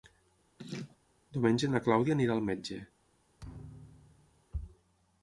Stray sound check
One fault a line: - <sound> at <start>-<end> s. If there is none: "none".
- laugh at 0.6-1.0 s
- thud at 3.4-4.4 s